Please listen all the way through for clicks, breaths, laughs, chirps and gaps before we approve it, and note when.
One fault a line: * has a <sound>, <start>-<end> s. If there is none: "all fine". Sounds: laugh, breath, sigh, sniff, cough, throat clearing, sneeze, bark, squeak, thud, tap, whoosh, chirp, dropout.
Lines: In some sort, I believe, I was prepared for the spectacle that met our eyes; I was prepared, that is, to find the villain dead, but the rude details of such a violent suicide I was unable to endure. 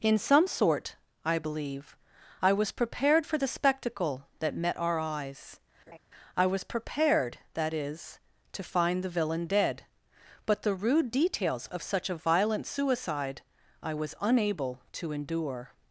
* has a laugh, 5.9-6.0 s